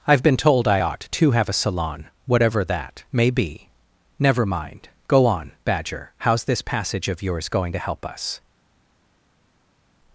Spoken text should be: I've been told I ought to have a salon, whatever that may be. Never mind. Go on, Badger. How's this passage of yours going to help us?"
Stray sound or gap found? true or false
false